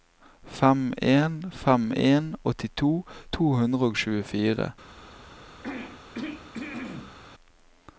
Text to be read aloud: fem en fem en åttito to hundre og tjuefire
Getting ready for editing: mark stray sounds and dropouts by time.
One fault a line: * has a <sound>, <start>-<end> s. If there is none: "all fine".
* has a throat clearing, 5.6-7.2 s